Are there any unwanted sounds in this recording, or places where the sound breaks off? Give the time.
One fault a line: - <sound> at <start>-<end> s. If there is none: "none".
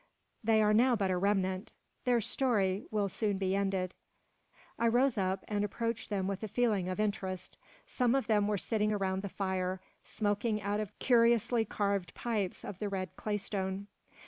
none